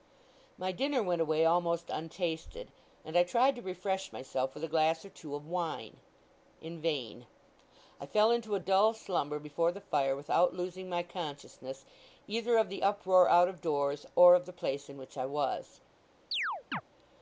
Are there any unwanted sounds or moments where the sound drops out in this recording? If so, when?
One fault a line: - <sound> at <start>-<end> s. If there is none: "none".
- chirp at 16.3-16.8 s